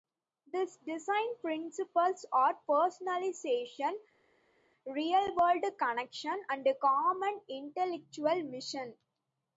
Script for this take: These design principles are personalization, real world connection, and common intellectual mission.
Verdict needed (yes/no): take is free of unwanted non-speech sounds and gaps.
yes